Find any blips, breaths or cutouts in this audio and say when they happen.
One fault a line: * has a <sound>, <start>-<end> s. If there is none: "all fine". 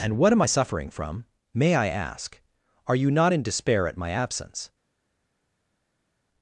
all fine